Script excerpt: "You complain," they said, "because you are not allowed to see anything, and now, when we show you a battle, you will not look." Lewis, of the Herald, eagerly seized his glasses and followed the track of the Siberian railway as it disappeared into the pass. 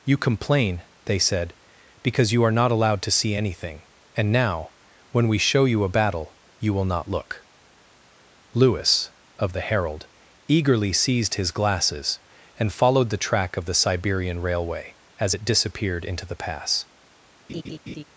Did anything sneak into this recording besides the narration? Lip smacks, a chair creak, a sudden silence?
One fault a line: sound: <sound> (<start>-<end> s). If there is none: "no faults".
sound: laugh (17.5-18.0 s)